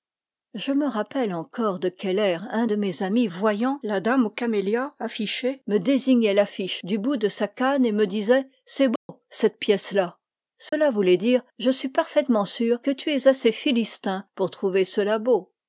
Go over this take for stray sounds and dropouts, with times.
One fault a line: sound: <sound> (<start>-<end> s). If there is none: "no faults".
sound: dropout (9.0-9.1 s)
sound: dropout (10.7-10.7 s)